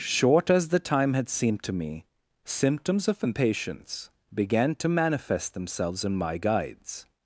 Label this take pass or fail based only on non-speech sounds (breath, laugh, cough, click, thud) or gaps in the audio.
pass